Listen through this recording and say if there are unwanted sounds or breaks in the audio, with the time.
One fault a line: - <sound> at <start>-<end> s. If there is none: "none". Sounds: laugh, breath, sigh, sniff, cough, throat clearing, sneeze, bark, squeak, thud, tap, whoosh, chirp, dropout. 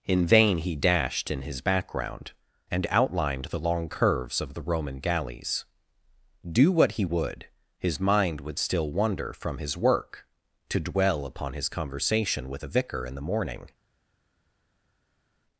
none